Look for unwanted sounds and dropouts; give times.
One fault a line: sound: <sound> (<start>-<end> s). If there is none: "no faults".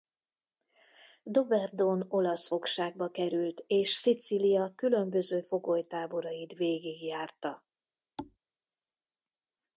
sound: thud (8.2-8.4 s)